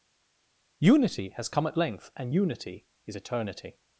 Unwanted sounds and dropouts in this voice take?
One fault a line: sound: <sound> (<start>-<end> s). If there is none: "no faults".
no faults